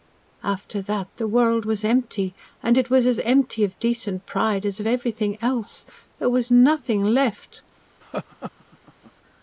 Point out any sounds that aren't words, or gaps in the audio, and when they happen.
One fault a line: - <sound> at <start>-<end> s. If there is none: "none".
- laugh at 8.0-9.1 s